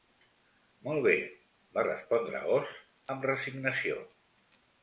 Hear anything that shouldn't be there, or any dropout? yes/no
no